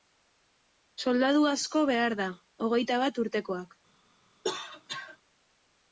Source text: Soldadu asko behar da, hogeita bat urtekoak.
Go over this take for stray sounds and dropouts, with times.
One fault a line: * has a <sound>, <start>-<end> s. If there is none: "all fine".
* has a cough, 4.4-5.2 s